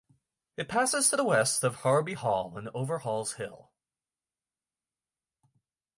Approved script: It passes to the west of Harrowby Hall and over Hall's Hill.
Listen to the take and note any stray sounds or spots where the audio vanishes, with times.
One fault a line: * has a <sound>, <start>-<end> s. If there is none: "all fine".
all fine